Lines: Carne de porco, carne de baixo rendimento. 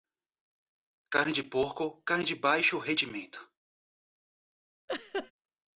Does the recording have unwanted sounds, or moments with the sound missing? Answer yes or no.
yes